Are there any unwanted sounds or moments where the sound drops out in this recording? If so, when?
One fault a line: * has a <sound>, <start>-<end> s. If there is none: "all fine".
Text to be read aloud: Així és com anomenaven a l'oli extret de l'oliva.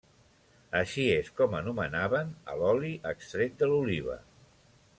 all fine